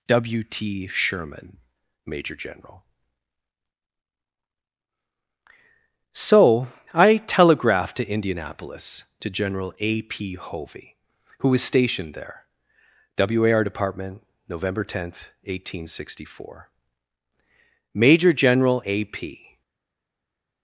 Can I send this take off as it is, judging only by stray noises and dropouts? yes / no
yes